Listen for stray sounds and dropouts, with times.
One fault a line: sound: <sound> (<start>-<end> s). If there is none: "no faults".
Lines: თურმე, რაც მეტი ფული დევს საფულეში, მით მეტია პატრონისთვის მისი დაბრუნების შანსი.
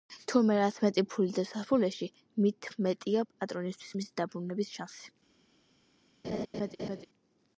sound: laugh (6.2-7.1 s)